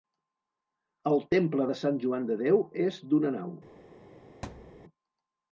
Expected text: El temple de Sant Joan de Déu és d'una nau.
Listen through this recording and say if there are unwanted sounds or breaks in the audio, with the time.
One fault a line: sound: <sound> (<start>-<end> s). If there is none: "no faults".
sound: thud (4.4-4.9 s)